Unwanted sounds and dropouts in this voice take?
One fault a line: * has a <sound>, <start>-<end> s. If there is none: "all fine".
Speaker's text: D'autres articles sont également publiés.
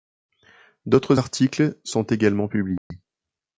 * has a dropout, 2.8-2.9 s